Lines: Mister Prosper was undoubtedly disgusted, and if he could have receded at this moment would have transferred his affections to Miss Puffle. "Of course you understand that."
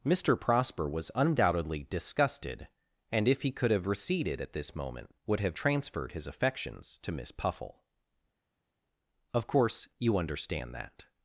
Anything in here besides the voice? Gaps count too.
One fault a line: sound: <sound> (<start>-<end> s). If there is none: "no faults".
no faults